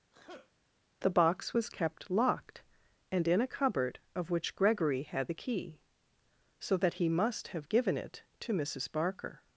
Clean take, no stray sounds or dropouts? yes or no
no